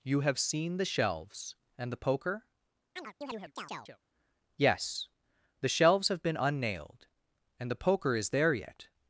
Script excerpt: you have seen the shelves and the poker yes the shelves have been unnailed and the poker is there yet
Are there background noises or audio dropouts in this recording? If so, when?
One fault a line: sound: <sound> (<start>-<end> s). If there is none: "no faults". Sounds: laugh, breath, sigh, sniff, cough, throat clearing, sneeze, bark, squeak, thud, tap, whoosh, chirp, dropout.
sound: chirp (3.0-4.0 s)